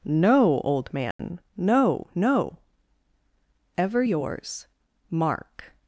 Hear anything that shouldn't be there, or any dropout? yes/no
yes